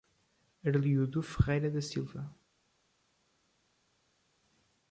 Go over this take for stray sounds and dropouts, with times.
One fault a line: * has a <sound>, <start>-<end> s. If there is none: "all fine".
all fine